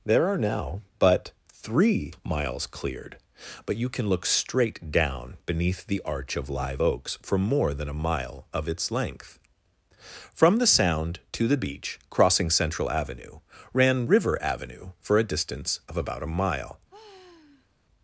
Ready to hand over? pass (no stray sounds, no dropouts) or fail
fail